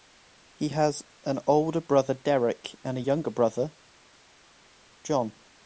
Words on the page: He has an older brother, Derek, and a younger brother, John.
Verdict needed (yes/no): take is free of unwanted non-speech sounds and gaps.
yes